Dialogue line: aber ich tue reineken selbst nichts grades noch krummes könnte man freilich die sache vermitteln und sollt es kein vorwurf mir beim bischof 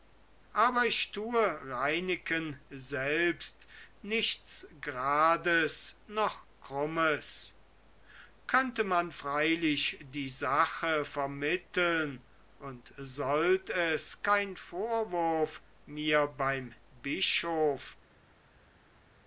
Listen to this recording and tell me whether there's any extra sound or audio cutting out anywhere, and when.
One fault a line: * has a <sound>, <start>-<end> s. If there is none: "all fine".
all fine